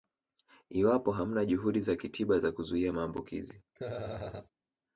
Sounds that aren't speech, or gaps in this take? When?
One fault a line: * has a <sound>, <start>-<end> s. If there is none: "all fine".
* has a laugh, 3.7-4.5 s